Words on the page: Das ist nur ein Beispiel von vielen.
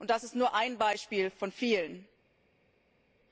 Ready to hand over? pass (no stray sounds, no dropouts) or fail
pass